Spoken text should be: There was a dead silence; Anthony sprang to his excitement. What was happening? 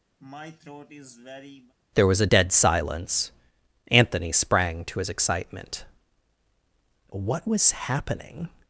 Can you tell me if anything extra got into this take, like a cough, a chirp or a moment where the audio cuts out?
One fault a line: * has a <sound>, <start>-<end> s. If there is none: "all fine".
* has a throat clearing, 0.2-1.7 s